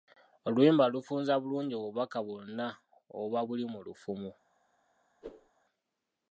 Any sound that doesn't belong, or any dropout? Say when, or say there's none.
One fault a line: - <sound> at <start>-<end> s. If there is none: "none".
- whoosh at 5.2-5.5 s